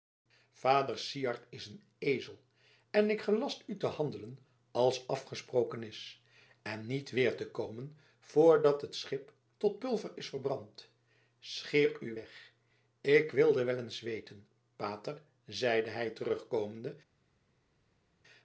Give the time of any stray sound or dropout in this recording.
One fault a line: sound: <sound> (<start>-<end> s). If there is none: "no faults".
no faults